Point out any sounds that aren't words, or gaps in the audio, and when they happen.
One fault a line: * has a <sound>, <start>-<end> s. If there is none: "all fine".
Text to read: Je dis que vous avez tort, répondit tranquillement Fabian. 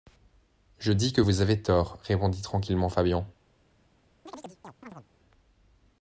* has a chirp, 4.3-5.1 s